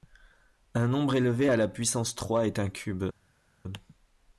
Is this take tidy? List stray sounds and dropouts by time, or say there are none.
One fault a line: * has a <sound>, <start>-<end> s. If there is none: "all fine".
all fine